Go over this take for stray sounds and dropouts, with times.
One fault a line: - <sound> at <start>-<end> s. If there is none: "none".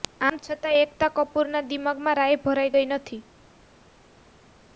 none